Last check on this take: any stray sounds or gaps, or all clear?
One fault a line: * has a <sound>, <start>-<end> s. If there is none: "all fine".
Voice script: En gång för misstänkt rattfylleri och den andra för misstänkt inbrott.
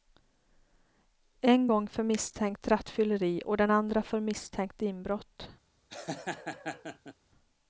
* has a laugh, 5.9-7.1 s